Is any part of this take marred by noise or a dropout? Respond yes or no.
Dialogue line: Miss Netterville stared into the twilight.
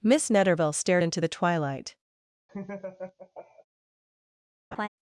yes